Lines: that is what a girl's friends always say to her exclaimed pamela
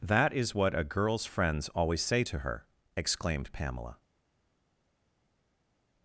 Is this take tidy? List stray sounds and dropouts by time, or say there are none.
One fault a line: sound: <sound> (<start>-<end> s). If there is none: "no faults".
no faults